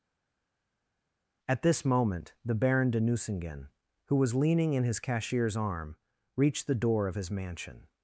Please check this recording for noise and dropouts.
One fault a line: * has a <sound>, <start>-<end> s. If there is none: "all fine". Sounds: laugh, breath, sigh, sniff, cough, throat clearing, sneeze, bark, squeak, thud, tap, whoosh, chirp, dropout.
all fine